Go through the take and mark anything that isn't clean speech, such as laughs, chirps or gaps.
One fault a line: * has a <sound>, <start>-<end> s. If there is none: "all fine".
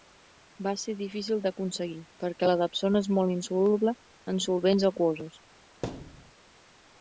* has a thud, 5.8-6.3 s